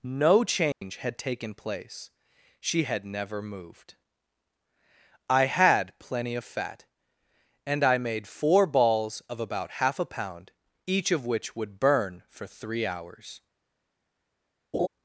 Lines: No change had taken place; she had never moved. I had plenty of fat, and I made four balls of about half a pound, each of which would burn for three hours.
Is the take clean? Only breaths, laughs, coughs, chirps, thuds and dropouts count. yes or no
no